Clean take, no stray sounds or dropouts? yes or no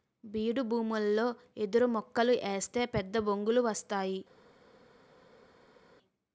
yes